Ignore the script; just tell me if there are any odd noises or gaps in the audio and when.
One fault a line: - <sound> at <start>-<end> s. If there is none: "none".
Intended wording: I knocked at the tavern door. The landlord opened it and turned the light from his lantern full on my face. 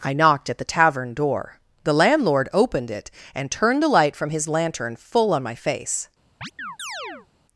- chirp at 6.4-7.3 s